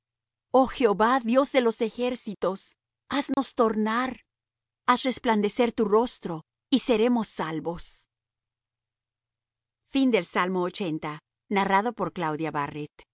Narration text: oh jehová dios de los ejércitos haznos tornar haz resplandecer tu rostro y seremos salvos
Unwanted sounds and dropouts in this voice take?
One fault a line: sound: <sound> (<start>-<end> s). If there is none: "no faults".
sound: dropout (3.3-3.4 s)